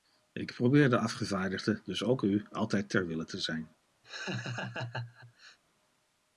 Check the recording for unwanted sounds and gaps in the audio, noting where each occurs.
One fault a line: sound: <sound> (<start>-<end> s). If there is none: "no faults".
sound: laugh (4.0-5.6 s)